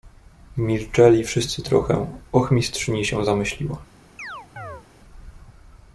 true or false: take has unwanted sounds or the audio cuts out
true